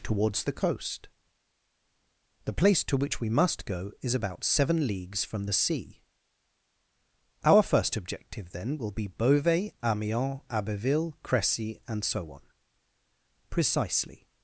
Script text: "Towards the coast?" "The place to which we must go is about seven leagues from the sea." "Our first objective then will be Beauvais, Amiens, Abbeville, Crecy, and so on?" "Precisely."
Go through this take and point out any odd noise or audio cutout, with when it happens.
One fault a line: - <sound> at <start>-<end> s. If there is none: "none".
none